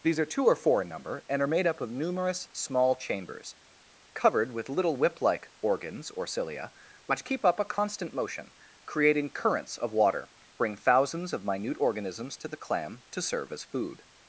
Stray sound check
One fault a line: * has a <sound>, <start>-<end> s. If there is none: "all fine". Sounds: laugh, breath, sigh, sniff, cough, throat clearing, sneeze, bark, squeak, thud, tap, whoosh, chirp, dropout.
all fine